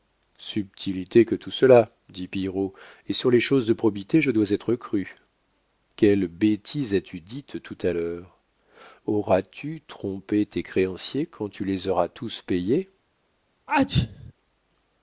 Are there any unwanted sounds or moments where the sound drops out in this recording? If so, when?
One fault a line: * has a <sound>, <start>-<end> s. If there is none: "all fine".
* has a sneeze, 13.7-14.3 s